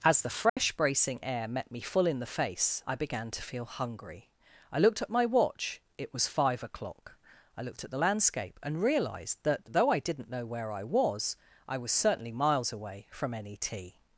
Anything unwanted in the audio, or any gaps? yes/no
yes